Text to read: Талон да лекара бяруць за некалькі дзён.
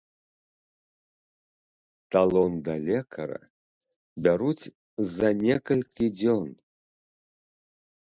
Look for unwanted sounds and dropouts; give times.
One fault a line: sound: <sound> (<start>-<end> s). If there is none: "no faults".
no faults